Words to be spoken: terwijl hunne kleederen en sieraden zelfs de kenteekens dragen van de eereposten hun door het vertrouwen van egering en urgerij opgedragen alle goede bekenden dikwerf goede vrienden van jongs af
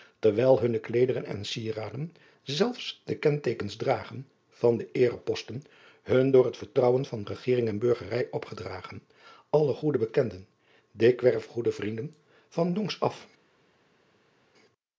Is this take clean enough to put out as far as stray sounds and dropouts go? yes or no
yes